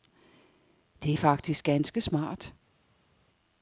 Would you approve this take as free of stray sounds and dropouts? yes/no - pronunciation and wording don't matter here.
yes